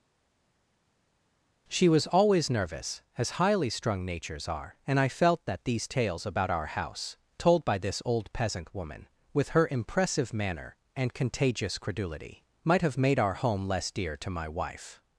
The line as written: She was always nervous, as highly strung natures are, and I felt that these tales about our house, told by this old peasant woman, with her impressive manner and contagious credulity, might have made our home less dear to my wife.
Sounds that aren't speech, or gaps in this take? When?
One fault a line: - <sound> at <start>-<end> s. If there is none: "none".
none